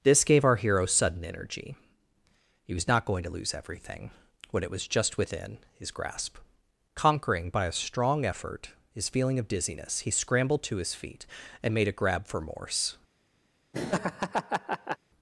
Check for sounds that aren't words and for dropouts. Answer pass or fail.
fail